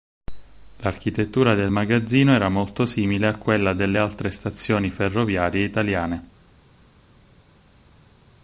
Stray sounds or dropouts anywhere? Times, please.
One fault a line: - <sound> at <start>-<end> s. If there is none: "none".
none